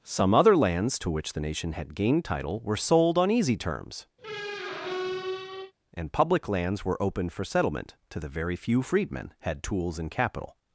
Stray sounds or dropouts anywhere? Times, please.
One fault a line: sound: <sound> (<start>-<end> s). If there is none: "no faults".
sound: squeak (4.2-5.7 s)